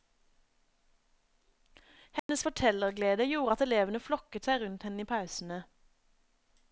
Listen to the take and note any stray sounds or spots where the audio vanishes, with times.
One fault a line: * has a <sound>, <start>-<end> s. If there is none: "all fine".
* has a dropout, 2.2-2.3 s